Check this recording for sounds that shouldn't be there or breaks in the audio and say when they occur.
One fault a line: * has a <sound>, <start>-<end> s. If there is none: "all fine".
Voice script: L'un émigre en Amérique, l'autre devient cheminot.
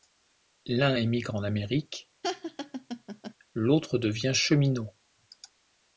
* has a laugh, 2.2-3.3 s